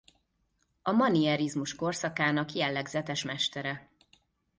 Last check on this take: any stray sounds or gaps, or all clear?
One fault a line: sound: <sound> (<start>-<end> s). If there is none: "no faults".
no faults